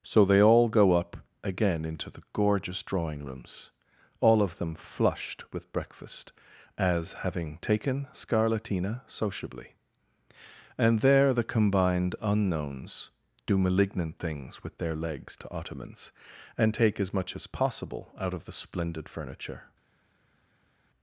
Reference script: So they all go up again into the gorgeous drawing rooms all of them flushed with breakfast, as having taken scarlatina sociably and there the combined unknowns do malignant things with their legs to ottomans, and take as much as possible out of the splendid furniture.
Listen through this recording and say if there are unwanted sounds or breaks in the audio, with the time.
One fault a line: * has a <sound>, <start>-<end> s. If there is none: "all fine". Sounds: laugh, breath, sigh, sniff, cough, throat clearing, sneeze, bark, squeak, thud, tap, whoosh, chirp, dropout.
all fine